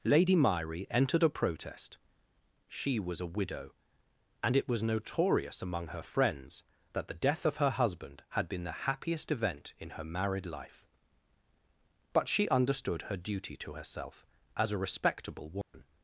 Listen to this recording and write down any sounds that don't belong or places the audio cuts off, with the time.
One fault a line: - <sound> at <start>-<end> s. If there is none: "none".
- dropout at 15.6-15.7 s